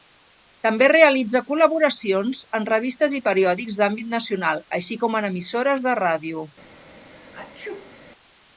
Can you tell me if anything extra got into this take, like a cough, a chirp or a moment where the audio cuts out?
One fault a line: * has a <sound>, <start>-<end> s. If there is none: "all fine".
* has a sneeze, 7.1-8.0 s